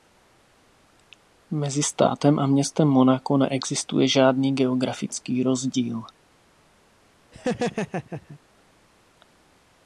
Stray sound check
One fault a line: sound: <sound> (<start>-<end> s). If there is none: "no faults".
sound: laugh (7.3-8.4 s)